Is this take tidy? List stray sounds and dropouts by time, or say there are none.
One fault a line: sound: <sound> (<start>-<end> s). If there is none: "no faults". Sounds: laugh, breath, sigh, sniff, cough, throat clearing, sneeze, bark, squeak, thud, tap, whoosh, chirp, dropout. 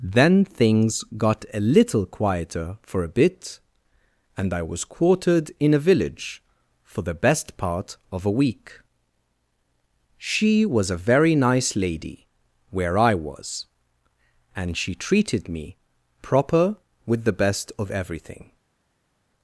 no faults